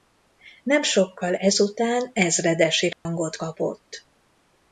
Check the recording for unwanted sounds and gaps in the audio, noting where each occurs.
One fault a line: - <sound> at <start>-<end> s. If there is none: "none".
- dropout at 2.9-3.1 s